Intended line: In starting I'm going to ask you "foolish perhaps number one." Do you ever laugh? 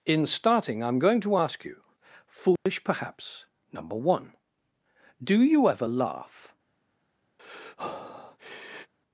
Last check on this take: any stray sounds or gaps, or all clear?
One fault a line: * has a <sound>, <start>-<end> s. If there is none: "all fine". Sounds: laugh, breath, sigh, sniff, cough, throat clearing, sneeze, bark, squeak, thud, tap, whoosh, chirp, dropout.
* has a dropout, 2.6-2.7 s
* has a breath, 7.4-8.9 s